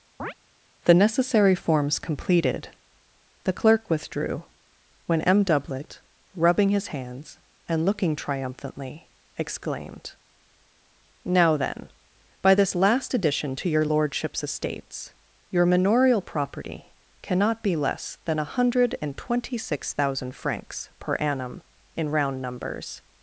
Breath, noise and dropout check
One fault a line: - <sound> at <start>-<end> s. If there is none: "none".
- chirp at 0.2-0.3 s